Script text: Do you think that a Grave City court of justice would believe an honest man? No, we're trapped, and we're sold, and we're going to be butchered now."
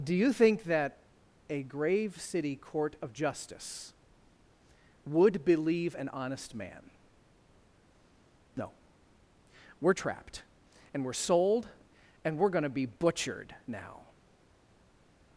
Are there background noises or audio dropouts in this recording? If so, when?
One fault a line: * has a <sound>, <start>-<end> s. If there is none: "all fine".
all fine